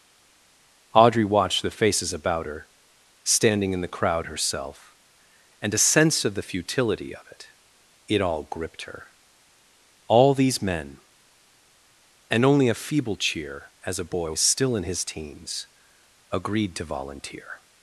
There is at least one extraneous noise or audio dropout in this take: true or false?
false